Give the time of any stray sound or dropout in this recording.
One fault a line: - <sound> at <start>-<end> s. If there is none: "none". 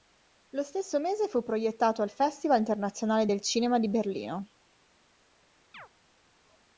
- chirp at 5.7-5.9 s